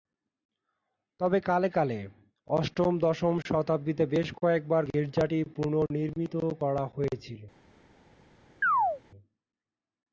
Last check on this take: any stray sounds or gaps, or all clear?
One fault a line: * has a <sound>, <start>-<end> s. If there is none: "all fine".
* has a chirp, 8.6-9.0 s